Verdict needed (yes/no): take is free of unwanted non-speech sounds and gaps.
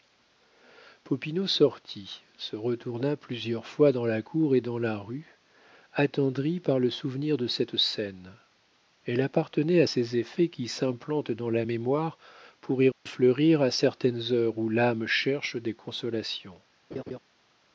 no